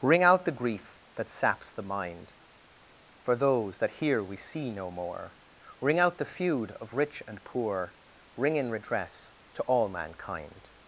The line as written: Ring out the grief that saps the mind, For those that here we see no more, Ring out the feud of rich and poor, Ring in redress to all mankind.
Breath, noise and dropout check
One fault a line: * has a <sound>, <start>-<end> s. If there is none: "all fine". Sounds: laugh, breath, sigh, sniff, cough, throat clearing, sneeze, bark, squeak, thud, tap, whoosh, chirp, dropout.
all fine